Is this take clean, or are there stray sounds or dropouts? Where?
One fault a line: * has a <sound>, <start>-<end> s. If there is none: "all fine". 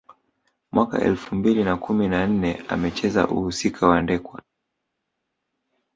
all fine